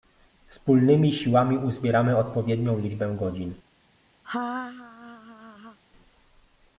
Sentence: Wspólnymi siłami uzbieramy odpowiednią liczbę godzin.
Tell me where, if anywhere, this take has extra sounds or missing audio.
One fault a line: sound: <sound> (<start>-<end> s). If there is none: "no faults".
sound: laugh (4.2-5.8 s)